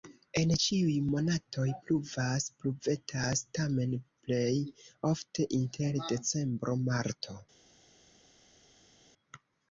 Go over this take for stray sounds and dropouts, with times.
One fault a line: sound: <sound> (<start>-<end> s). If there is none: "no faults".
no faults